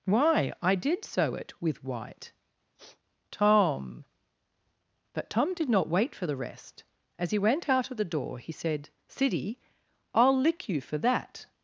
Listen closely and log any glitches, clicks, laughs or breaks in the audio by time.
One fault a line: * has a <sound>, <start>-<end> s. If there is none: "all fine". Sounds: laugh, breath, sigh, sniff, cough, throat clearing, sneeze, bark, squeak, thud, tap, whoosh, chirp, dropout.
* has a sniff, 2.8-3.0 s